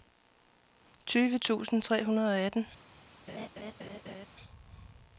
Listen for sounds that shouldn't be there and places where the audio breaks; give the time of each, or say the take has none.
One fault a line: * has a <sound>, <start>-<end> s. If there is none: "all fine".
* has a laugh, 3.3-4.3 s